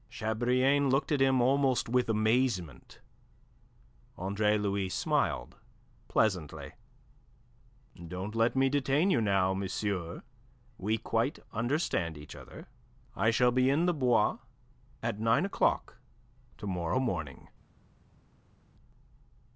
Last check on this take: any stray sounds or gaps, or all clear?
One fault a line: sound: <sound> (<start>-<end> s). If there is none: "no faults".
no faults